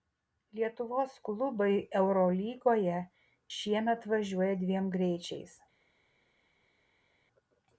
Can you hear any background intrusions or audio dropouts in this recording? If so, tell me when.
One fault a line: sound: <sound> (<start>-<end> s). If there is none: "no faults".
no faults